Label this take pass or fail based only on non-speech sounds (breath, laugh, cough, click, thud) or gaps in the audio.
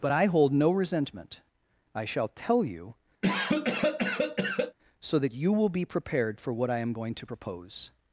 fail